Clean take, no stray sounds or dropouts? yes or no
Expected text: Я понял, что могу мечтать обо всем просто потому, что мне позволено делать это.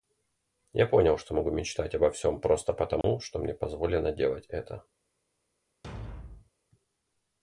no